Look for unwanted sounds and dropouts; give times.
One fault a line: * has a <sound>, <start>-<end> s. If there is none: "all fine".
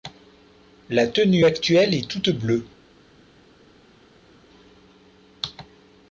all fine